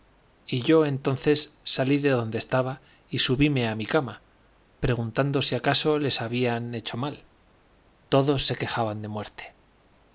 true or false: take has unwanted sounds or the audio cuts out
false